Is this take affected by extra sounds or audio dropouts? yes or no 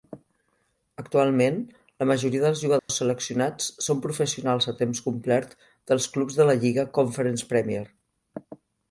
yes